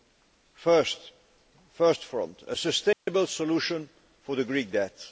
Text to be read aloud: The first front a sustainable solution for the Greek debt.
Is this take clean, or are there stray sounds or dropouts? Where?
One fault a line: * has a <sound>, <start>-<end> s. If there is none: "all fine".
* has a dropout, 2.9-3.1 s